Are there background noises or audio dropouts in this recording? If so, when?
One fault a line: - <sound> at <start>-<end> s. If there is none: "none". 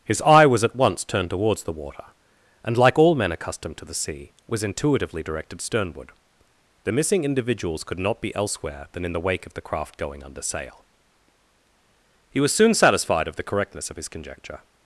none